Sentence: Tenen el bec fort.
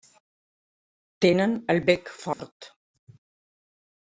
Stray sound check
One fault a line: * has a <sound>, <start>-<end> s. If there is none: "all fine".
* has a dropout, 2.3-2.4 s